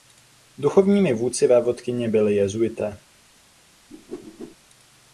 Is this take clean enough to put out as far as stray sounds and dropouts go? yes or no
no